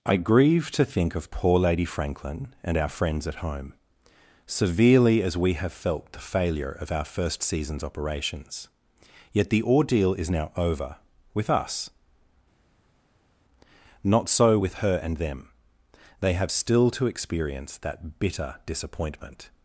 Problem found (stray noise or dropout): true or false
false